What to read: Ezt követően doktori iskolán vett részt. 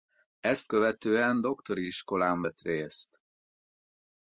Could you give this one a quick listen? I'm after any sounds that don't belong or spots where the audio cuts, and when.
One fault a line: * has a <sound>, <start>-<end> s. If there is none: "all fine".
all fine